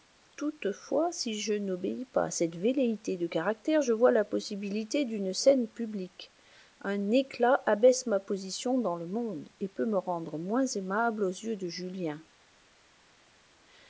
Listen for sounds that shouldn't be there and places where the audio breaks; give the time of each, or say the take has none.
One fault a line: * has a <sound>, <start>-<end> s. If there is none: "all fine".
all fine